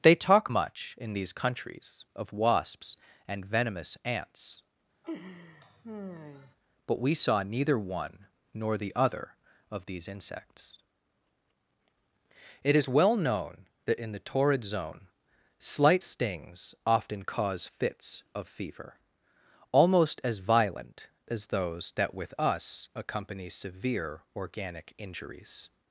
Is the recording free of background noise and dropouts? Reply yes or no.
no